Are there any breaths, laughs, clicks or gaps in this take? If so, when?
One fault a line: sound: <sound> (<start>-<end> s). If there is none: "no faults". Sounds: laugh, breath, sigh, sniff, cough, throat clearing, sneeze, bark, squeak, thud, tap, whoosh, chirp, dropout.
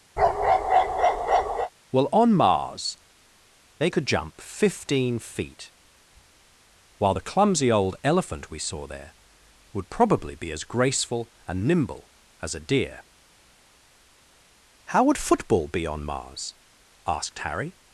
sound: bark (0.2-1.7 s)